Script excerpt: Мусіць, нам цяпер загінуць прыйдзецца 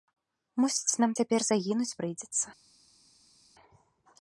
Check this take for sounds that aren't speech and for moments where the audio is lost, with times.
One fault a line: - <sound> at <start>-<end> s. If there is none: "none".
none